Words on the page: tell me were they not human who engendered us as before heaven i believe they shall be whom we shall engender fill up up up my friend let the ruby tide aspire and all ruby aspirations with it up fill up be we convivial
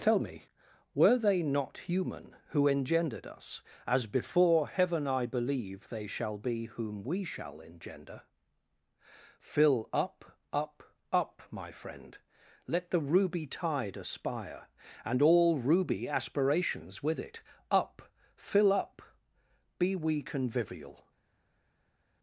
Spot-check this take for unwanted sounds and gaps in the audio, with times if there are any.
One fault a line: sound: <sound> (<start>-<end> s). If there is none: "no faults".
no faults